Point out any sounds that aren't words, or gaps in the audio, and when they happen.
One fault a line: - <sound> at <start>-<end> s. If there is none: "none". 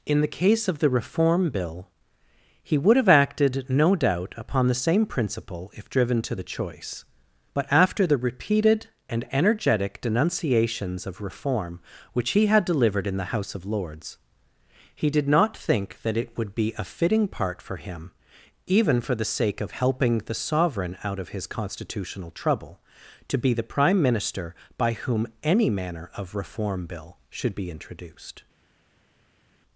none